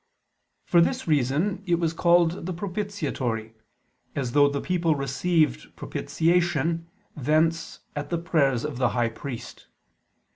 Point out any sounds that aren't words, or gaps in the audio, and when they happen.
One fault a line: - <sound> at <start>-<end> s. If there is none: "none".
none